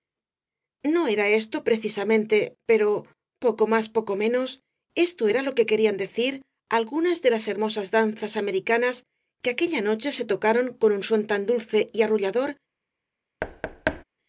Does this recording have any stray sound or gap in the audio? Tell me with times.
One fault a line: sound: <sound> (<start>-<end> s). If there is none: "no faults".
sound: thud (13.4-14.0 s)